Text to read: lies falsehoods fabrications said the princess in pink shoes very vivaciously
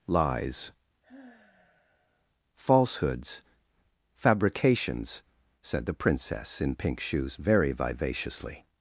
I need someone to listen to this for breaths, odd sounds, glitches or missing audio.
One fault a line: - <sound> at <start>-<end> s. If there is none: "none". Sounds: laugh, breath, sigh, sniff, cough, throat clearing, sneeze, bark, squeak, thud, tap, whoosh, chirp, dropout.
- sigh at 1.0-2.3 s